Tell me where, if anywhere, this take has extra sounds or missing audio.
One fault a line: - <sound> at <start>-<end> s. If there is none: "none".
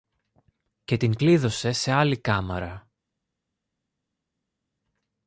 none